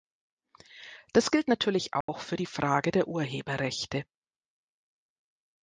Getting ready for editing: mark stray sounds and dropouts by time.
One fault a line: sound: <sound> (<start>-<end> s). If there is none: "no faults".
sound: dropout (2.0-2.1 s)